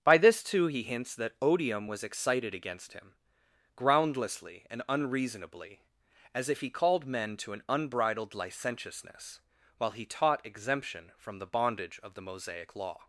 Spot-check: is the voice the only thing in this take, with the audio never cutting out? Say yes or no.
yes